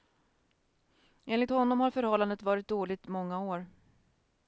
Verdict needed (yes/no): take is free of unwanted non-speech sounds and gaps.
yes